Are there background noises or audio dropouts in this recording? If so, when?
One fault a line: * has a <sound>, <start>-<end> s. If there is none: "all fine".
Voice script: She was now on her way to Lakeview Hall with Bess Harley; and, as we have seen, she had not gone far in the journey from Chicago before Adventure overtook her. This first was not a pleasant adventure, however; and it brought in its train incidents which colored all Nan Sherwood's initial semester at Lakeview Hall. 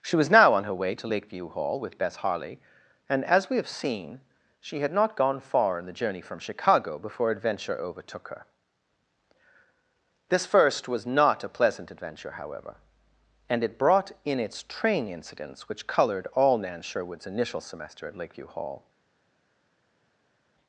all fine